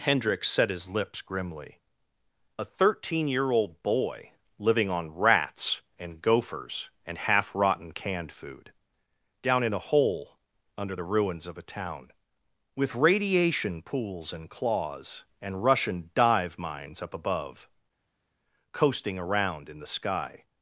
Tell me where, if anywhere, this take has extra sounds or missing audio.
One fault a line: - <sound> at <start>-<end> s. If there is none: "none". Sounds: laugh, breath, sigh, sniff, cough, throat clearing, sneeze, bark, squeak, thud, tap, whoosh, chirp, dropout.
none